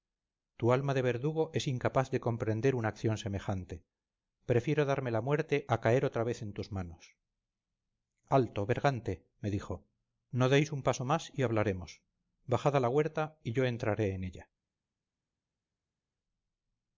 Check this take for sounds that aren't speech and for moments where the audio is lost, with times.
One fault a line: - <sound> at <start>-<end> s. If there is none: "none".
none